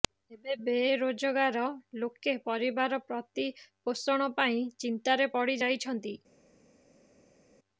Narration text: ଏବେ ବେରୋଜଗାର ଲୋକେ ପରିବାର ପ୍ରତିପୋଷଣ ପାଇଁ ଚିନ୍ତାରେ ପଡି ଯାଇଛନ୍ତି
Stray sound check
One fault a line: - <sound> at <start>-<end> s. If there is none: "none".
none